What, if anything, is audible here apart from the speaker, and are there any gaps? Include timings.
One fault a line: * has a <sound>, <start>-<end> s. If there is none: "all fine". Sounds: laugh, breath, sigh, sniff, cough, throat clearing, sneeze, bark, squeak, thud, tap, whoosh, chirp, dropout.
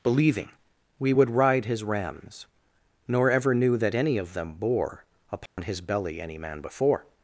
* has a dropout, 5.5-5.6 s